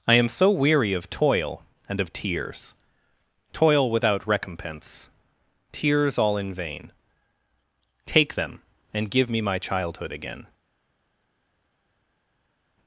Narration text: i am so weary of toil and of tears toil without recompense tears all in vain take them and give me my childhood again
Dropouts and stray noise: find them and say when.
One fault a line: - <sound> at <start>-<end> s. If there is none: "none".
none